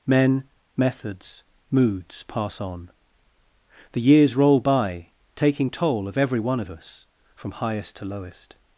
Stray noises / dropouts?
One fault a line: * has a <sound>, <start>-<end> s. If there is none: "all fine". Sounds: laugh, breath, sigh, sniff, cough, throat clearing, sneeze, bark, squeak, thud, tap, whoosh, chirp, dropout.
all fine